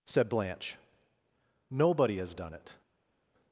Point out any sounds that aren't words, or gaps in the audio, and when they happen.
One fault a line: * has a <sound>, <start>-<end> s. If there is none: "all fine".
all fine